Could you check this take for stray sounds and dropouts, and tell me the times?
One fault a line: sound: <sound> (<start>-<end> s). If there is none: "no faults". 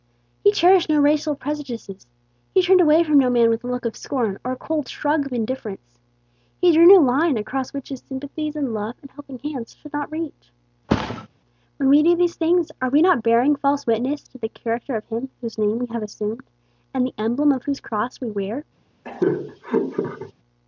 sound: thud (10.9-11.3 s)
sound: laugh (19.0-20.3 s)